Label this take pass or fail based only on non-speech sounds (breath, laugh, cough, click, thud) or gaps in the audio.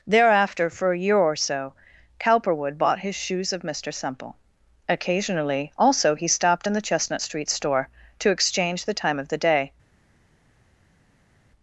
pass